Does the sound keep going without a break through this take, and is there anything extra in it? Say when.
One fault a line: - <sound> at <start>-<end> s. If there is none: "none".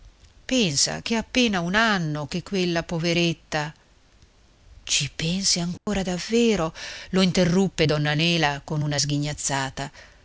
- dropout at 5.8-5.9 s